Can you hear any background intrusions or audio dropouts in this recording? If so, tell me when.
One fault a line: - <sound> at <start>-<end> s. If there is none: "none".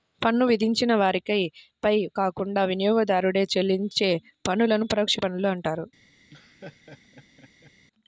- laugh at 6.3-7.7 s